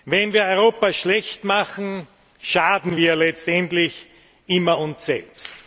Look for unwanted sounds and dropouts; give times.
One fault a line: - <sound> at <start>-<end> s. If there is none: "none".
none